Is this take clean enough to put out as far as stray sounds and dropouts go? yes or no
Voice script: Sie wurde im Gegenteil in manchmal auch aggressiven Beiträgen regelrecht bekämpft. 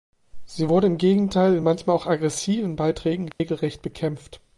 no